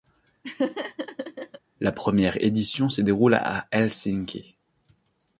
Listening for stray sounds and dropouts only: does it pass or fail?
fail